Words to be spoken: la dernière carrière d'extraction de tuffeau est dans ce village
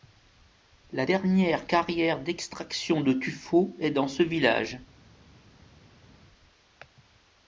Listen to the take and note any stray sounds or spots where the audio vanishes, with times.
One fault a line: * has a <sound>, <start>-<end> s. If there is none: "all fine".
all fine